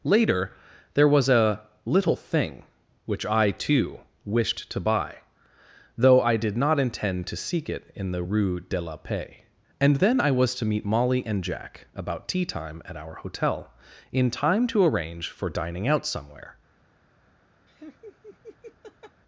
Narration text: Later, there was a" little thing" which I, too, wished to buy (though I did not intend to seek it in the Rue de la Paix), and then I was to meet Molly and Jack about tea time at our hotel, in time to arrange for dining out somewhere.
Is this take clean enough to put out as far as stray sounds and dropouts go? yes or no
no